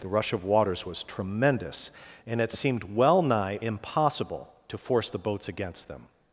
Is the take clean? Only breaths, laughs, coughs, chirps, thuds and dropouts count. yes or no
yes